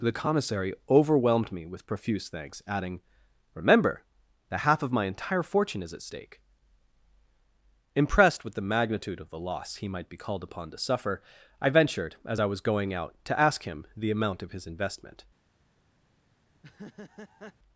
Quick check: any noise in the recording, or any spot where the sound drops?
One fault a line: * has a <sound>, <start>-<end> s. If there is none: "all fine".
* has a laugh, 16.5-17.5 s